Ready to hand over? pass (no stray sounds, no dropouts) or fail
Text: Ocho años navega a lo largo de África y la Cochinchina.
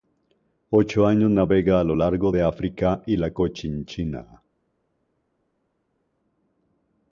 pass